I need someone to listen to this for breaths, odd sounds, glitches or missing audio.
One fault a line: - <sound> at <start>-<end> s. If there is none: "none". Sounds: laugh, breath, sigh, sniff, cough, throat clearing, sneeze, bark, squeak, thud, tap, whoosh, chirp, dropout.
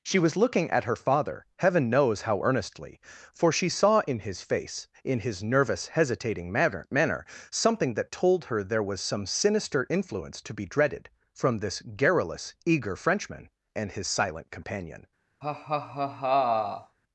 - laugh at 15.4-17.0 s